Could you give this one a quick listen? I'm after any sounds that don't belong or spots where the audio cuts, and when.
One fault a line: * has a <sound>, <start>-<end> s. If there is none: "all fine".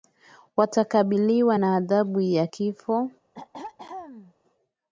* has a throat clearing, 3.3-4.3 s